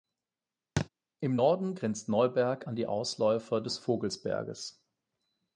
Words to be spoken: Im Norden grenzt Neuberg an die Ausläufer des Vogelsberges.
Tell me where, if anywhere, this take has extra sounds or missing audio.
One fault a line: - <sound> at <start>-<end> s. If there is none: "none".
- thud at 0.8-0.9 s